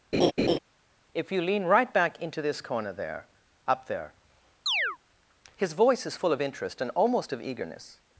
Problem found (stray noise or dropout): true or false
true